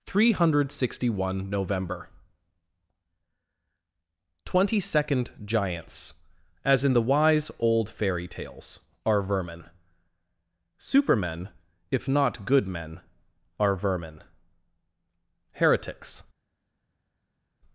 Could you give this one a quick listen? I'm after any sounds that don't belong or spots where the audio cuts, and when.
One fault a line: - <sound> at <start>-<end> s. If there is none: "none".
none